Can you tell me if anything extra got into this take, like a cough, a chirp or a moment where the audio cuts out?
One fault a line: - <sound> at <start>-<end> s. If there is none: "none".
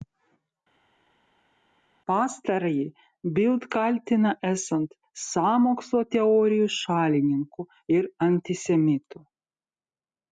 none